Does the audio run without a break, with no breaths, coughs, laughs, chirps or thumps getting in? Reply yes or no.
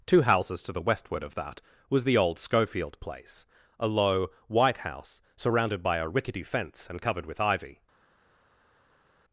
yes